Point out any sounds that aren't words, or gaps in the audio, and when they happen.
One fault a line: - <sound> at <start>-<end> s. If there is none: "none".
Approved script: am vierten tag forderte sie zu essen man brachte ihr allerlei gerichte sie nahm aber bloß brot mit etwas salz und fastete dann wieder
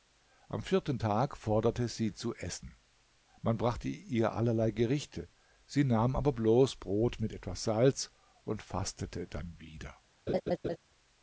- laugh at 10.3-10.8 s